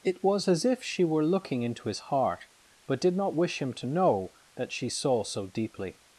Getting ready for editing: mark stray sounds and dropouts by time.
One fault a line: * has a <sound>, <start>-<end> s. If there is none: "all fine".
all fine